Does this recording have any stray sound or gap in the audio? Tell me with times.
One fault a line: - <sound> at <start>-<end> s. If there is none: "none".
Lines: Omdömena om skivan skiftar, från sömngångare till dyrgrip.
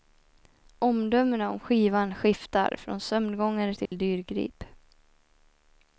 - dropout at 3.9-3.9 s